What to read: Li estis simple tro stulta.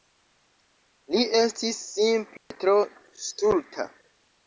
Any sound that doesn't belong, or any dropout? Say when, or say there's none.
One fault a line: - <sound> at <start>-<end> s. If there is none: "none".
- dropout at 2.4-2.5 s